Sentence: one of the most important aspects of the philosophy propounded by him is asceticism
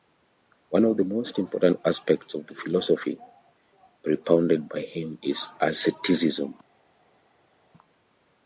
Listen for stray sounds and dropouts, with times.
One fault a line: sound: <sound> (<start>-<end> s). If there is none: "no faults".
no faults